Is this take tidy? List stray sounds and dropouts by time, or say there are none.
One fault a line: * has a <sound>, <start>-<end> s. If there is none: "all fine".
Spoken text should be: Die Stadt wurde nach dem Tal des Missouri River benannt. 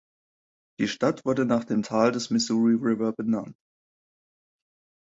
all fine